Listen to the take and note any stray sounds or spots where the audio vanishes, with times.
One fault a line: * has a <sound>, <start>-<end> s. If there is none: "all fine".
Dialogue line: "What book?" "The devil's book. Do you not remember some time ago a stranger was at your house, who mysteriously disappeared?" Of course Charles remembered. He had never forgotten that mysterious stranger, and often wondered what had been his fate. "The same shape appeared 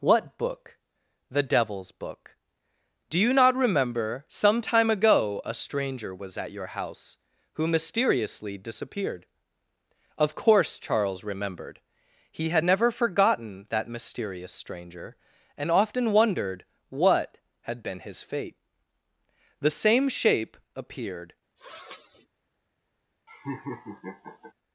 * has a sniff, 21.6-22.3 s
* has a laugh, 23.3-24.5 s